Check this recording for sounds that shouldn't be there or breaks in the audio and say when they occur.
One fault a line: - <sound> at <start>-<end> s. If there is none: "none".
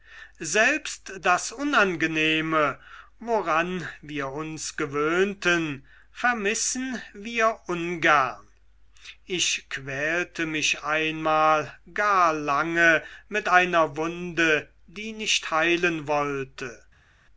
none